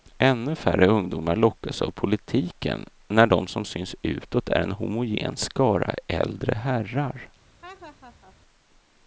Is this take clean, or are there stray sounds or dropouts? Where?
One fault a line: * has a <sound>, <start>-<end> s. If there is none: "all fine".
* has a laugh, 7.6-8.4 s